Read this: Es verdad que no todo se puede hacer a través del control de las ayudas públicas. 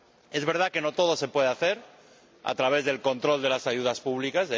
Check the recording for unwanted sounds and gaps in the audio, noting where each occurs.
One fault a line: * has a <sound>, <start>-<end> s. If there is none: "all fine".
all fine